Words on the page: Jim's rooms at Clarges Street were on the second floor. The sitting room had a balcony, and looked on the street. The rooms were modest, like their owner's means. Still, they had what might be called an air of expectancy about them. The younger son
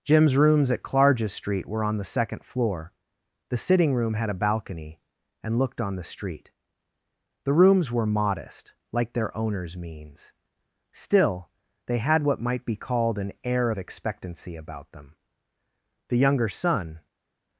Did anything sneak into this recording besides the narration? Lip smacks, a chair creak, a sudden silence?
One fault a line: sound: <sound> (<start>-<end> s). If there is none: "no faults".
no faults